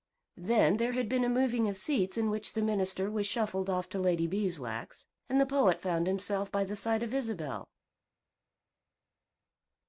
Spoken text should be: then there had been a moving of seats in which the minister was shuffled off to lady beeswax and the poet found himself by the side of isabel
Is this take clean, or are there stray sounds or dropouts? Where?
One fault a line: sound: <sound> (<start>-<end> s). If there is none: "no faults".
no faults